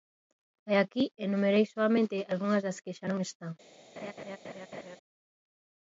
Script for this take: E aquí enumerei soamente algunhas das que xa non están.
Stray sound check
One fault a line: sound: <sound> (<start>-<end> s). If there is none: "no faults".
sound: laugh (4.0-5.0 s)